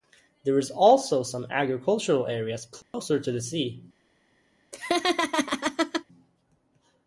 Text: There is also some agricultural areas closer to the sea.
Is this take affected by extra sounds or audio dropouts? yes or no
yes